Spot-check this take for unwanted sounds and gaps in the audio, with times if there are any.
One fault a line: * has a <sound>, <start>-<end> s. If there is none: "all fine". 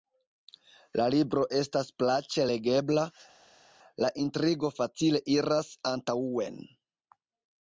all fine